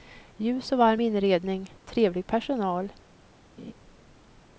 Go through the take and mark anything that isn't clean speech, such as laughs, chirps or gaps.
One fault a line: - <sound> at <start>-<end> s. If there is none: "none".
- laugh at 3.6-3.7 s